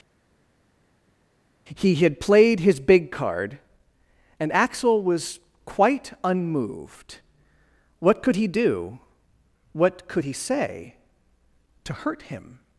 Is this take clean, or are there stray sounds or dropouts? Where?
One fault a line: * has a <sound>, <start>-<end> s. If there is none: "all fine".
all fine